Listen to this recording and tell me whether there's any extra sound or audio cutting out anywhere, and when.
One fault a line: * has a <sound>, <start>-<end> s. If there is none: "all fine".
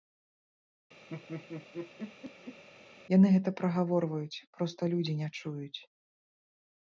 * has a laugh, 1.1-2.6 s